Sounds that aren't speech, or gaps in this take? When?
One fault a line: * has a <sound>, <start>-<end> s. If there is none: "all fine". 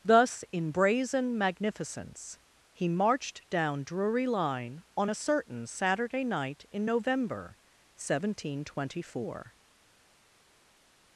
all fine